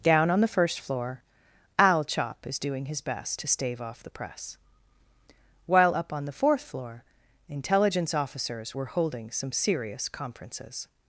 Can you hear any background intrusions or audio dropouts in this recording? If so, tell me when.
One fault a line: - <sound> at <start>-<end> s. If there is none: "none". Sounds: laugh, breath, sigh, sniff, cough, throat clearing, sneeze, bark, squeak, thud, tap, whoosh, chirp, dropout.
none